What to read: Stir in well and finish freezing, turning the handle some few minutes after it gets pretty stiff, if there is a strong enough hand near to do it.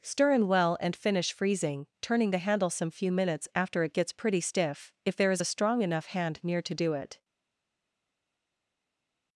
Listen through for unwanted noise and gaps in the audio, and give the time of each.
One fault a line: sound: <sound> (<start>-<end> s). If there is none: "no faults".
no faults